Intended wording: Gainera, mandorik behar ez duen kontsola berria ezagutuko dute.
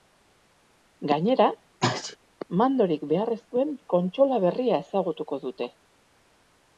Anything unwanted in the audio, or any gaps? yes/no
yes